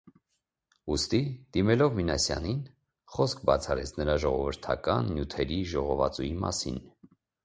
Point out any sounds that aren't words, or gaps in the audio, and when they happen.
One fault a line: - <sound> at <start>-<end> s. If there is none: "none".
none